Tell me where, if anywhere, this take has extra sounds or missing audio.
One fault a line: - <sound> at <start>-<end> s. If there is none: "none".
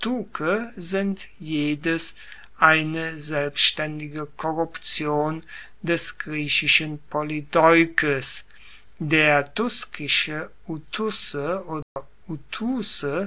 - dropout at 11.8-12.0 s